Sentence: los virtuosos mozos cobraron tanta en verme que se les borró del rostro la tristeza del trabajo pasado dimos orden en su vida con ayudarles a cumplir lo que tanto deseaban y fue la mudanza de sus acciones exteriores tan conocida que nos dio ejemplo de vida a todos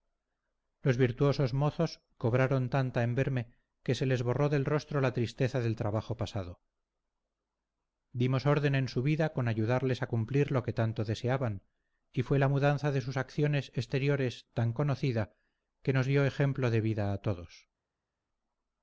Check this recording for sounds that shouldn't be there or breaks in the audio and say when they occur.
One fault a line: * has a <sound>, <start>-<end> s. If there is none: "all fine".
all fine